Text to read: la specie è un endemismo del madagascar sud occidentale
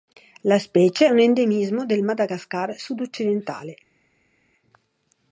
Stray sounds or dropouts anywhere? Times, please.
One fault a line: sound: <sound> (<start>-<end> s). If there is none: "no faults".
no faults